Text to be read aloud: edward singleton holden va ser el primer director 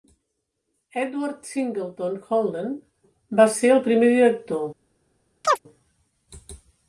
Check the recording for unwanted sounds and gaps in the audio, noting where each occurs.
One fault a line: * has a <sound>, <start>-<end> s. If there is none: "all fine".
* has a chirp, 5.4-5.6 s